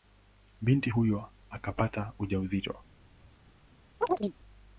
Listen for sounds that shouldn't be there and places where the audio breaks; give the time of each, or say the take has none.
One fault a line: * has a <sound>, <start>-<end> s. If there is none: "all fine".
* has a chirp, 4.0-4.3 s